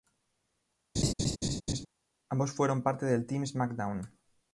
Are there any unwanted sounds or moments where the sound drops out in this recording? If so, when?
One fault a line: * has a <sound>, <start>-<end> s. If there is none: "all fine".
* has a laugh, 1.0-1.9 s